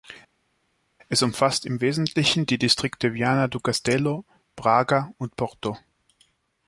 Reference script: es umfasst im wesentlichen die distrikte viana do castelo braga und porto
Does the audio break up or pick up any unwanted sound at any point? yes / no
no